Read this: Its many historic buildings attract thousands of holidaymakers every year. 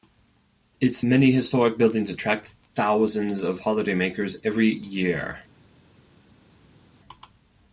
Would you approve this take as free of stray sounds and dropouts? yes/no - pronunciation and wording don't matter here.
yes